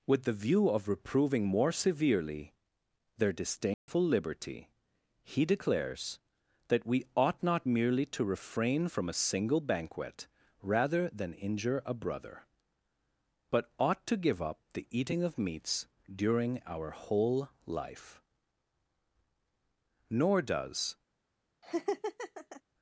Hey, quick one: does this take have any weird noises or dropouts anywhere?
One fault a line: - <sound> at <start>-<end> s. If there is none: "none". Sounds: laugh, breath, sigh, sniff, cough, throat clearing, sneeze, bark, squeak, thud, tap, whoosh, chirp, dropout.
- dropout at 3.7-3.9 s
- laugh at 21.6-22.6 s